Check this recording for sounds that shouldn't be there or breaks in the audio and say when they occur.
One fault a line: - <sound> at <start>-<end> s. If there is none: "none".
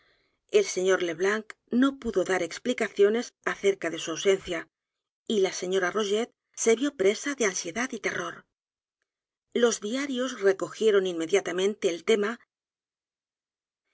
none